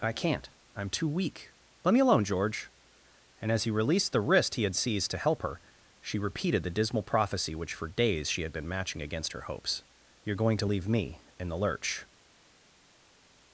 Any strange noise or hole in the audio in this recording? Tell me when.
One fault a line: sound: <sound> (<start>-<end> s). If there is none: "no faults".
no faults